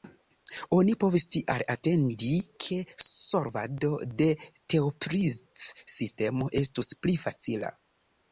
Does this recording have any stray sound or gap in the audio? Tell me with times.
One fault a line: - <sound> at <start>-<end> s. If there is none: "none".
none